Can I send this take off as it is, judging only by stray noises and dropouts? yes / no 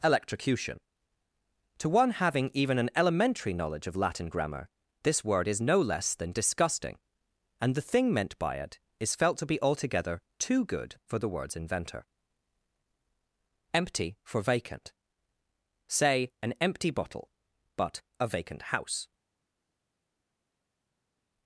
yes